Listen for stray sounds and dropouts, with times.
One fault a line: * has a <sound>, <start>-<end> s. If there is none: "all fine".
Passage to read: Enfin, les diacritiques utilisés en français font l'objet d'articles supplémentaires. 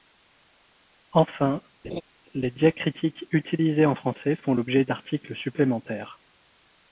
* has a laugh, 1.8-2.0 s